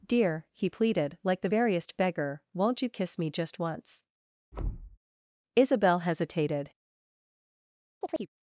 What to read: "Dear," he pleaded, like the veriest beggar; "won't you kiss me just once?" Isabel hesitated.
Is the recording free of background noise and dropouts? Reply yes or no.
no